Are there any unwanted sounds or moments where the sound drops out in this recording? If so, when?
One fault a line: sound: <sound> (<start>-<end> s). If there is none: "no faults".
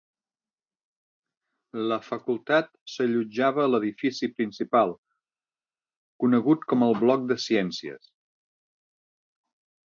no faults